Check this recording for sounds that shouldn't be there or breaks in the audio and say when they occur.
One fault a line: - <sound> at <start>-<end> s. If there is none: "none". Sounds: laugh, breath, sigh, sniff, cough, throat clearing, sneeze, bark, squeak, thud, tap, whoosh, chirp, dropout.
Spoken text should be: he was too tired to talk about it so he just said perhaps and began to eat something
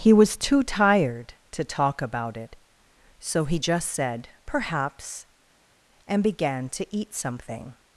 none